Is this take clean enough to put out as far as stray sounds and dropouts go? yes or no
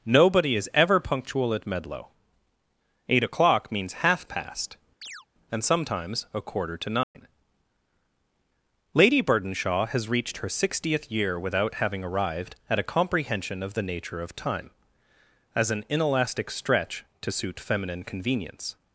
no